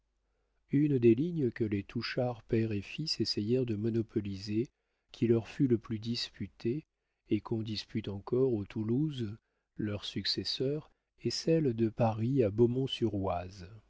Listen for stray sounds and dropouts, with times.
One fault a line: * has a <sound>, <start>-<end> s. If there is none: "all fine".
all fine